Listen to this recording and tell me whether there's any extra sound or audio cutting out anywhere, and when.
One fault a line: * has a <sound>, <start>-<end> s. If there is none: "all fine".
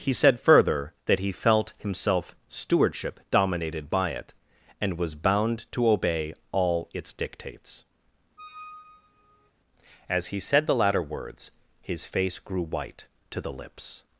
* has a squeak, 8.4-9.5 s